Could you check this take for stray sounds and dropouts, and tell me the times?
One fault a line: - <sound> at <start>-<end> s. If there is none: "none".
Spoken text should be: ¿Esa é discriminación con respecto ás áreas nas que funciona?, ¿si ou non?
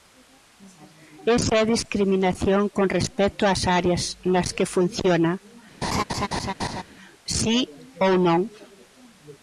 - laugh at 5.8-6.8 s